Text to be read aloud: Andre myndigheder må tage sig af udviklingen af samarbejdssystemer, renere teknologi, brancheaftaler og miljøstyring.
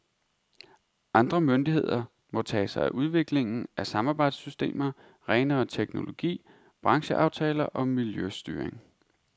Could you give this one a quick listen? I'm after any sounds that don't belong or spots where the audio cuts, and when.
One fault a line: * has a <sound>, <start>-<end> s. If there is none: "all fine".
all fine